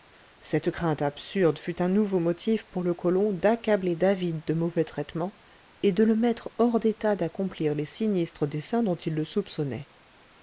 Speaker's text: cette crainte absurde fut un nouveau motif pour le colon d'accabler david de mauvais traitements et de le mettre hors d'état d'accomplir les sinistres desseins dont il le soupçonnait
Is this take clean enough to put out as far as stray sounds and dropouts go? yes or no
yes